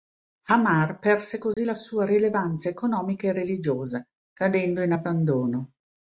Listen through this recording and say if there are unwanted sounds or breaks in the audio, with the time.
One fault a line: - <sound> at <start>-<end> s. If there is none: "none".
- dropout at 1.5-1.6 s